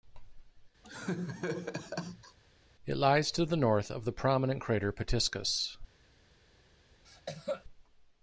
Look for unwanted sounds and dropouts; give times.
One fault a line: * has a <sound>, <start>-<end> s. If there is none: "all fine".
* has a laugh, 0.8-2.4 s
* has a cough, 7.0-7.6 s